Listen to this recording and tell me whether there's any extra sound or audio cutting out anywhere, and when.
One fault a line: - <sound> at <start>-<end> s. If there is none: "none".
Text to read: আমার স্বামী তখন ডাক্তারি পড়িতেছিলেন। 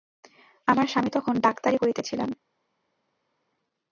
none